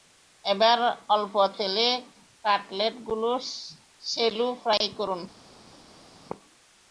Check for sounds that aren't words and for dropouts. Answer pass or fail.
pass